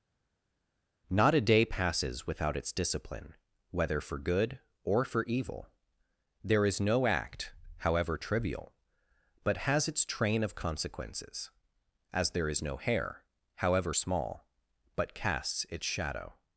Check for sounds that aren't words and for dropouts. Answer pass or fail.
pass